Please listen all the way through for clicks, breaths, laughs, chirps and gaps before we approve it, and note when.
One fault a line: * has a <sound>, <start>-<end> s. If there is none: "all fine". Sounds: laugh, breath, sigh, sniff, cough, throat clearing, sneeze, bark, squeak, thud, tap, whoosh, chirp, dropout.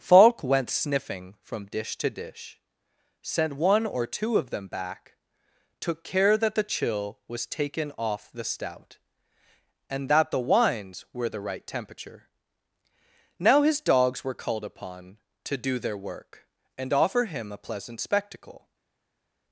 all fine